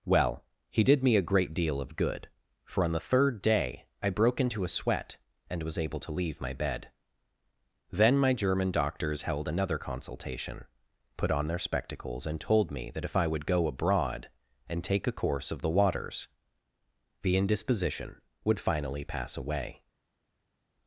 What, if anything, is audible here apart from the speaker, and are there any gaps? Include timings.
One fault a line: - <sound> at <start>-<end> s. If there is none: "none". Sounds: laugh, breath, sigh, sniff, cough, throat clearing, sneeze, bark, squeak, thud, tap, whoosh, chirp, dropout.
none